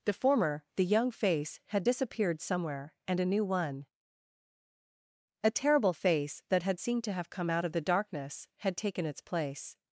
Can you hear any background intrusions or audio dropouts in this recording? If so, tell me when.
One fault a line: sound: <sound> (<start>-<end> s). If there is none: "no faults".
no faults